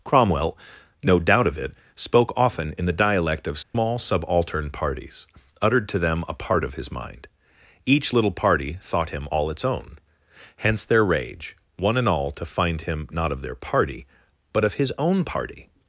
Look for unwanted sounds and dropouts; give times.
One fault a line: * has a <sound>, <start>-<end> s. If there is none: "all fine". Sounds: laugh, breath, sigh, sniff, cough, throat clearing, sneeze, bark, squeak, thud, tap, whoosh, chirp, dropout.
* has a dropout, 3.6-3.7 s